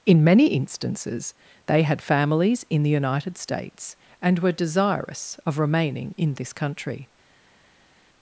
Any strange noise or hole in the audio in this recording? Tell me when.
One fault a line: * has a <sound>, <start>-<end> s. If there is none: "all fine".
all fine